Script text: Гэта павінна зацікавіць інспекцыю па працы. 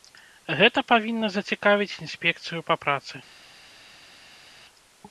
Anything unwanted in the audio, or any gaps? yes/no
no